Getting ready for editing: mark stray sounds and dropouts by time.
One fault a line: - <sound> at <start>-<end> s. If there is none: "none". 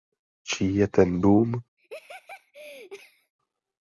- laugh at 1.8-3.3 s